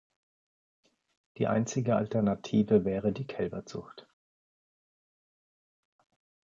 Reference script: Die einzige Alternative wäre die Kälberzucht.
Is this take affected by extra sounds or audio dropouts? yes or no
no